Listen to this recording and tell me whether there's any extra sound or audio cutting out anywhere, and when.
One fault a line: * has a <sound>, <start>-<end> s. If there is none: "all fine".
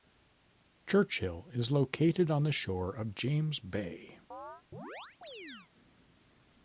* has a chirp, 4.3-5.7 s